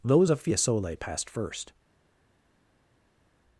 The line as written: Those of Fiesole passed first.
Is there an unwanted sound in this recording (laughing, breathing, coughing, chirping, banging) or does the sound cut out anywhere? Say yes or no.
no